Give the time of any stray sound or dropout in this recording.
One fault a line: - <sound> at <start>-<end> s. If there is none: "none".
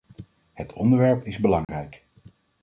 - dropout at 1.6-1.7 s